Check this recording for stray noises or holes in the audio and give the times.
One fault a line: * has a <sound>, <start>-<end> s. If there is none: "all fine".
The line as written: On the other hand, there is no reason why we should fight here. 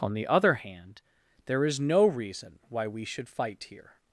all fine